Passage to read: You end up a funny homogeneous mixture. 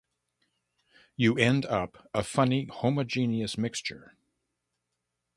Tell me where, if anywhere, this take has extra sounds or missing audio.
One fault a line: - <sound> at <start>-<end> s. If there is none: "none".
none